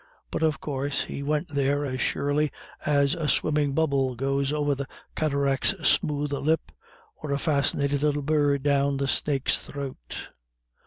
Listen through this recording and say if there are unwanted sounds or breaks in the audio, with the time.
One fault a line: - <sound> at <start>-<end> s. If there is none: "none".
none